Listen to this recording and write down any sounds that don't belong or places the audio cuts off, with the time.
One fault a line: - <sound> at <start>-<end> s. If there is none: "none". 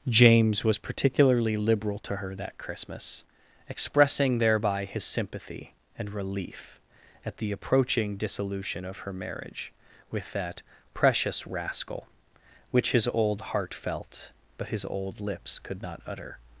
none